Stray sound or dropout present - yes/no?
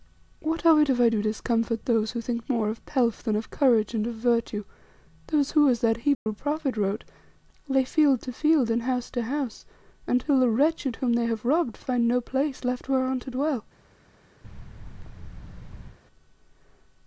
yes